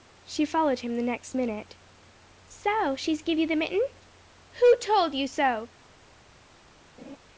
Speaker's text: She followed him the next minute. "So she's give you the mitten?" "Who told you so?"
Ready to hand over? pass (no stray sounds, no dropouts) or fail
fail